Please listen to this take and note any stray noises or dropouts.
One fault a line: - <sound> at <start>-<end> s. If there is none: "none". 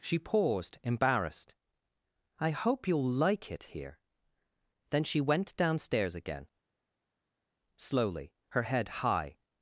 none